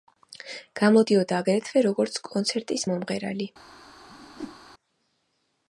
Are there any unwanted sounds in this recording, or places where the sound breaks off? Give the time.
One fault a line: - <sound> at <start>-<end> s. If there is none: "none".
- whoosh at 4.1-4.6 s